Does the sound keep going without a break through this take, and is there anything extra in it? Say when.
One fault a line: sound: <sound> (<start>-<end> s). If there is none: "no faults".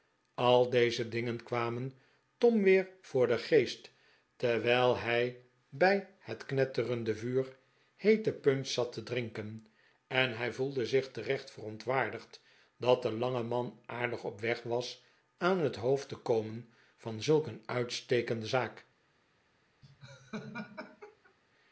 sound: laugh (19.8-21.3 s)